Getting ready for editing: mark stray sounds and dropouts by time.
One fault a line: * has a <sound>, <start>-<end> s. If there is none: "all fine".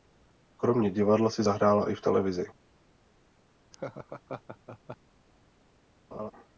* has a laugh, 3.7-5.0 s
* has a laugh, 6.1-6.3 s